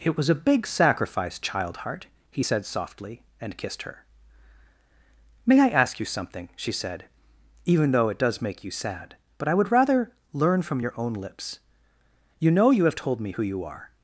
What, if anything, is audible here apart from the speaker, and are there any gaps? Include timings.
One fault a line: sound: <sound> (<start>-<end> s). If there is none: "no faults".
no faults